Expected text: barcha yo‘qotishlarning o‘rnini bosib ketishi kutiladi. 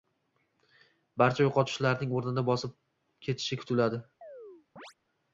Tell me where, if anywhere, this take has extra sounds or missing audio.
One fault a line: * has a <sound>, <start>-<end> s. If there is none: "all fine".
* has a chirp, 4.2-4.9 s